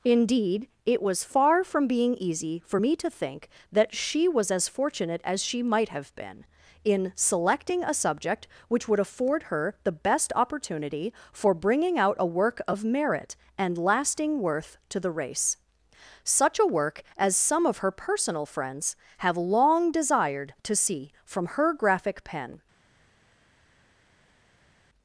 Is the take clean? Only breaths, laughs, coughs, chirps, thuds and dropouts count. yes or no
yes